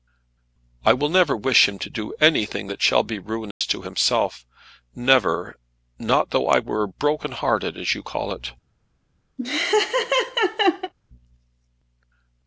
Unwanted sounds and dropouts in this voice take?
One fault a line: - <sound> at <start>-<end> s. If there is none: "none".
- dropout at 3.5-3.6 s
- laugh at 9.4-10.9 s